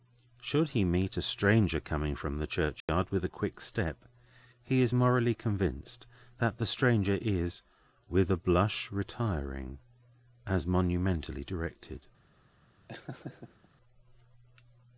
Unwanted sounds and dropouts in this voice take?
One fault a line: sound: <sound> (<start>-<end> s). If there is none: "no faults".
sound: dropout (2.8-2.9 s)
sound: laugh (12.9-13.7 s)